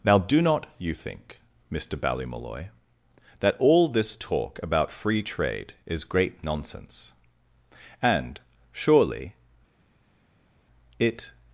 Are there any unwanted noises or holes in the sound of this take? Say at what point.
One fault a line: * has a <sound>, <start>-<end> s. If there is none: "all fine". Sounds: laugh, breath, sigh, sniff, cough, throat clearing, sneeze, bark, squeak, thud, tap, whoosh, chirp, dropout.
all fine